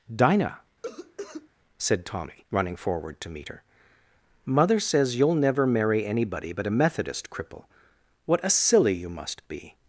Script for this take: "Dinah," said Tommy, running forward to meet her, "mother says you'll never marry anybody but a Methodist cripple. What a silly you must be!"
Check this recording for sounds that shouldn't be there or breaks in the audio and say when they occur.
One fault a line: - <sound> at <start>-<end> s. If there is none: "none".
- cough at 0.8-1.5 s